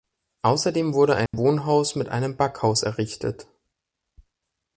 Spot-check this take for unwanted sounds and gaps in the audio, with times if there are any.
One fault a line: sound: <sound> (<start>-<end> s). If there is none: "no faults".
sound: dropout (1.3-1.3 s)